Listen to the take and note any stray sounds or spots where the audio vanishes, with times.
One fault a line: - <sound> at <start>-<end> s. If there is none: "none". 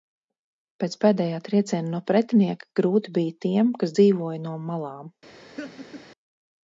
- laugh at 5.6-6.0 s